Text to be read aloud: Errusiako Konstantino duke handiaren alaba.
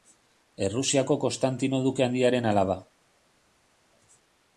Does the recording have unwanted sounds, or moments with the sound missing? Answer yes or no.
no